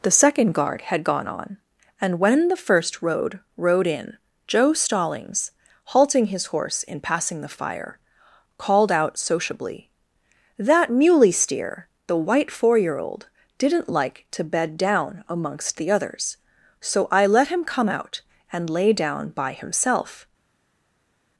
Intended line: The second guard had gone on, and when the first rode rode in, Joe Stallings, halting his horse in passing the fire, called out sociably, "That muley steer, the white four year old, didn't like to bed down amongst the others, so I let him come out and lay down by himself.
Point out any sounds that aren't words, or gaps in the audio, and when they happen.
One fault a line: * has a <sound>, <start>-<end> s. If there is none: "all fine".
all fine